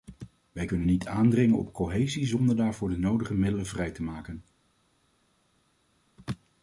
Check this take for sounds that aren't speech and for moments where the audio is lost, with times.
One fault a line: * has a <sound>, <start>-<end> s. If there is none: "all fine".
all fine